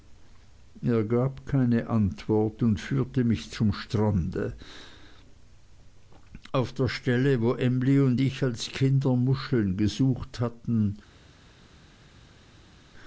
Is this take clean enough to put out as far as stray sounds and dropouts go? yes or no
yes